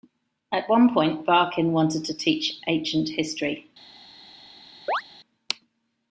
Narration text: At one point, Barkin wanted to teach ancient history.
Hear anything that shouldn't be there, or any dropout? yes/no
yes